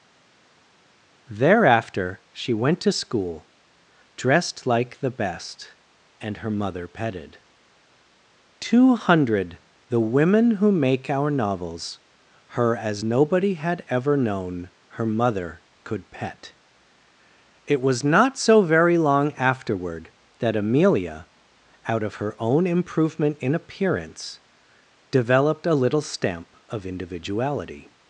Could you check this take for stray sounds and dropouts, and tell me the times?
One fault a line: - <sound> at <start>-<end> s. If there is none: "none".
none